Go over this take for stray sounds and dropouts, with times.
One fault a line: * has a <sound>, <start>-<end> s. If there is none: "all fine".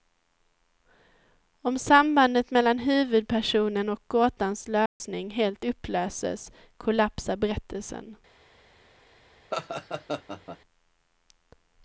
* has a dropout, 4.9-5.0 s
* has a laugh, 9.5-10.6 s